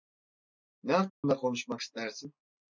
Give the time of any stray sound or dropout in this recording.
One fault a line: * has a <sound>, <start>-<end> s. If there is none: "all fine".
* has a dropout, 1.1-1.2 s